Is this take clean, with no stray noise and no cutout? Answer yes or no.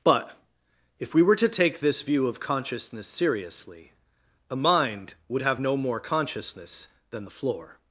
yes